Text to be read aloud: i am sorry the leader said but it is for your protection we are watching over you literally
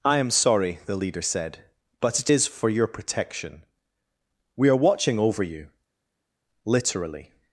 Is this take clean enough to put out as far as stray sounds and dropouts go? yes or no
yes